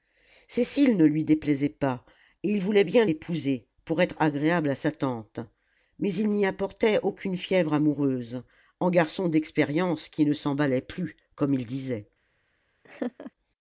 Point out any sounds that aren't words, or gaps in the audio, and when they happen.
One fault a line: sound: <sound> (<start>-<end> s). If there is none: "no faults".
sound: laugh (12.8-13.3 s)